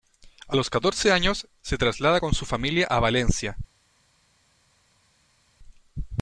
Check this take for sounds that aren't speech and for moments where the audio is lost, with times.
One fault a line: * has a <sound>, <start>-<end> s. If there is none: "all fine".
all fine